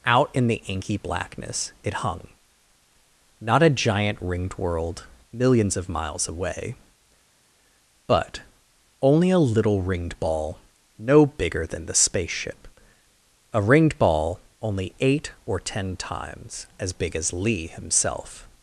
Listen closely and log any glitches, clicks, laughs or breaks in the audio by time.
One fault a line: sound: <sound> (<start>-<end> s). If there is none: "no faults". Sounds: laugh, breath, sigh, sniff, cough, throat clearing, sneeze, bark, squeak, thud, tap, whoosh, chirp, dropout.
no faults